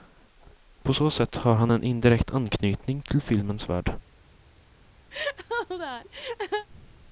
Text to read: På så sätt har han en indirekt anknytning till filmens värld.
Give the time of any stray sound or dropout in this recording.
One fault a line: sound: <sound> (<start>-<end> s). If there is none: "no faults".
sound: laugh (5.1-6.7 s)